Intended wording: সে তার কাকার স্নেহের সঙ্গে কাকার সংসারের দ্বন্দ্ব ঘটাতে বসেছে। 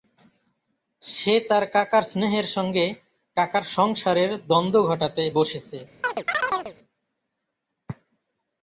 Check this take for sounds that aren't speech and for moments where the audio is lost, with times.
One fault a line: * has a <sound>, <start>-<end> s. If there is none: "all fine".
* has a chirp, 6.0-6.7 s